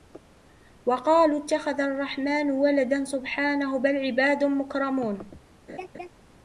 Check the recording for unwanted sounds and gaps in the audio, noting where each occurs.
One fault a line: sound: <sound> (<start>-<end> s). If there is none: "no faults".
sound: laugh (5.7-6.1 s)